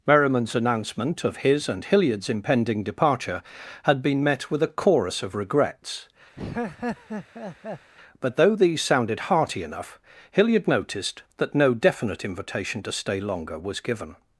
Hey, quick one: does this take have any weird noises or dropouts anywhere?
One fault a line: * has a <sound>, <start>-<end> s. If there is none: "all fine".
* has a laugh, 6.4-7.9 s